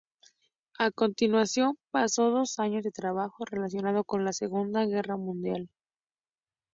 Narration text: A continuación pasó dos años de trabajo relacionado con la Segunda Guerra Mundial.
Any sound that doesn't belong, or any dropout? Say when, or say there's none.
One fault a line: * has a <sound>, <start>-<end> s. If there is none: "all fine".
all fine